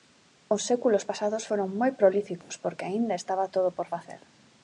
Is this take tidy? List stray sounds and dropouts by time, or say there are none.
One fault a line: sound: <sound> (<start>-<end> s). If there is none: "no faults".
sound: dropout (2.4-2.5 s)